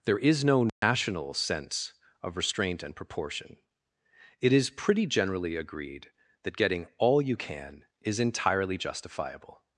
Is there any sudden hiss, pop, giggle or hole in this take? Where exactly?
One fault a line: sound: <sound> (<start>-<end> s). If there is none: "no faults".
sound: dropout (0.7-0.8 s)